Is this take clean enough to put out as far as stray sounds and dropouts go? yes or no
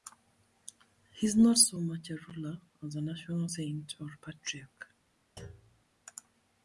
no